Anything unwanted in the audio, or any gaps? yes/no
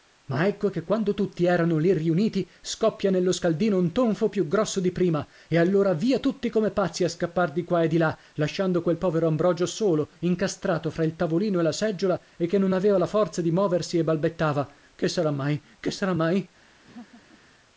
yes